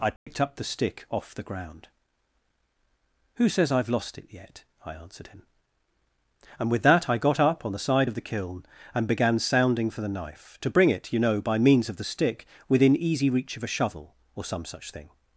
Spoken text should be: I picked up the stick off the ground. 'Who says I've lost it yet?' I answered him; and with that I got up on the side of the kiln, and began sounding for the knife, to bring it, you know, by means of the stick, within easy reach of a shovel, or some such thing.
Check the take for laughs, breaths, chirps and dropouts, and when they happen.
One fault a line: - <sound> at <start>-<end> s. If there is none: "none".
- dropout at 0.2-0.3 s